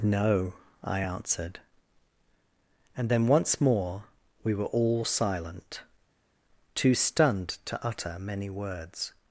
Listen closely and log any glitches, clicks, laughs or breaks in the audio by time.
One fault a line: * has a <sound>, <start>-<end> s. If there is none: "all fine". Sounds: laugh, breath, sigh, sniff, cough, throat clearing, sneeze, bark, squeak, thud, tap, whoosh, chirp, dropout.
all fine